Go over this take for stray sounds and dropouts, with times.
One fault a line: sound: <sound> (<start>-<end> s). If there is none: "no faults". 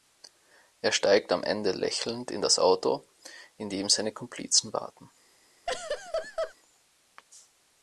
sound: laugh (5.7-6.5 s)